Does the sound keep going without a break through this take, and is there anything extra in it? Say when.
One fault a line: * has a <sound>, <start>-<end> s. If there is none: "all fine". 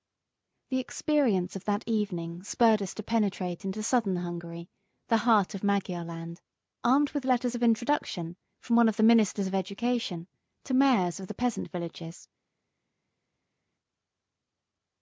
all fine